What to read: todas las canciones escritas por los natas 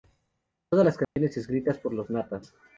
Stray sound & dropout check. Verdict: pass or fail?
fail